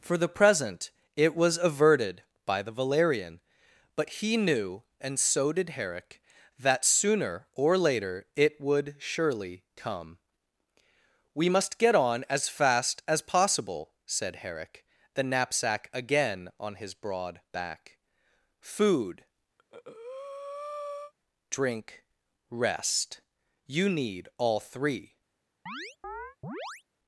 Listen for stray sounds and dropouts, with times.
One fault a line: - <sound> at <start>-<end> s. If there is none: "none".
- breath at 19.6-21.1 s
- chirp at 25.7-26.8 s